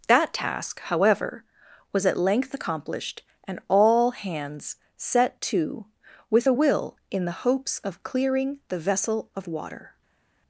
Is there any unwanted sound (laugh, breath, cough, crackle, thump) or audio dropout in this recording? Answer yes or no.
no